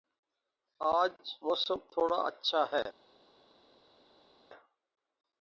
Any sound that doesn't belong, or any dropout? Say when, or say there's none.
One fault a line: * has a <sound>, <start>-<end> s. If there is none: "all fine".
all fine